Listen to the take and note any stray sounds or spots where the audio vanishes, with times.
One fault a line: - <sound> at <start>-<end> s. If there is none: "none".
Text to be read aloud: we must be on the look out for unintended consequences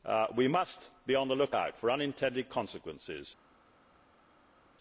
none